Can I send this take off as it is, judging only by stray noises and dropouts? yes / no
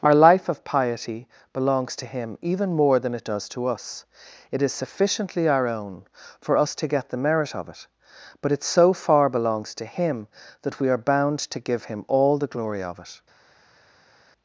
yes